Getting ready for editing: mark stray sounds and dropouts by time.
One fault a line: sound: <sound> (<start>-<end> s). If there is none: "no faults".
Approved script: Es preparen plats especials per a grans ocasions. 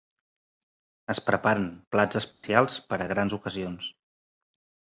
sound: dropout (2.3-2.4 s)